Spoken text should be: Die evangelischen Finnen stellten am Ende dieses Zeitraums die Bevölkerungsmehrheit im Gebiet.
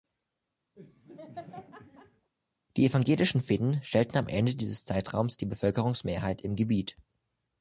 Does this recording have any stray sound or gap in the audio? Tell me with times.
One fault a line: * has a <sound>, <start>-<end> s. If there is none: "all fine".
* has a laugh, 0.8-2.3 s